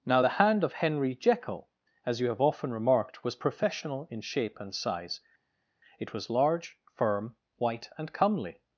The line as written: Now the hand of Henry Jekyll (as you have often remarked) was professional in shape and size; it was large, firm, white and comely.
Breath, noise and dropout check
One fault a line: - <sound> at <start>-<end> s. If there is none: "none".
none